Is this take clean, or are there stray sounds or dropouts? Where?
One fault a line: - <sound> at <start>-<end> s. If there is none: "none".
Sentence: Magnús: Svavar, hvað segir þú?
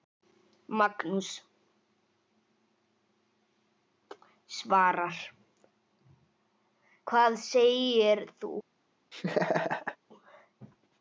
- laugh at 9.1-10.0 s